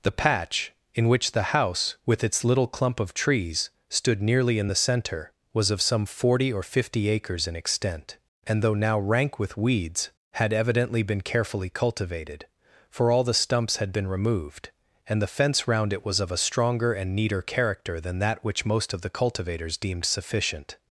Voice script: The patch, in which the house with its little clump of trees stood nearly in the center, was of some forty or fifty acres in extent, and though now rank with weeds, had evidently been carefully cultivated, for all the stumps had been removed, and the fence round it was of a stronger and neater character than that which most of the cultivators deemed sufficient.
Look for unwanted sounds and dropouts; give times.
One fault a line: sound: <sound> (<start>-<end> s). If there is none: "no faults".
no faults